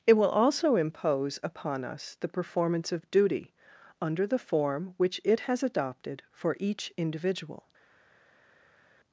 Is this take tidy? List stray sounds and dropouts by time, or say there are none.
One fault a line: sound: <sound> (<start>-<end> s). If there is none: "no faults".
no faults